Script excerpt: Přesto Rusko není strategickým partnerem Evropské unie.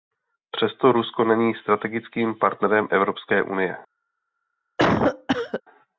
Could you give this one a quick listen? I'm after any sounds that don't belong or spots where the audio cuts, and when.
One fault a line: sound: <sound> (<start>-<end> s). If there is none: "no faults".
sound: cough (4.8-5.6 s)